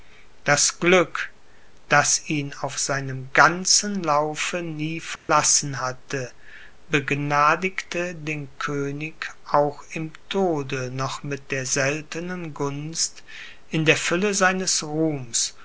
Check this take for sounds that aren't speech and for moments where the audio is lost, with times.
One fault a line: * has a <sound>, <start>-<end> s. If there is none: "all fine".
* has a dropout, 5.2-5.3 s